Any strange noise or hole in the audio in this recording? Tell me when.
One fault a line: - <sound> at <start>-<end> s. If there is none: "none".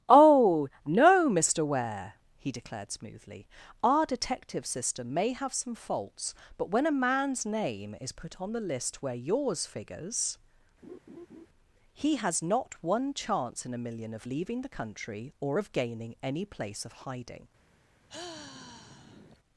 - laugh at 10.8-11.5 s
- sigh at 18.1-19.4 s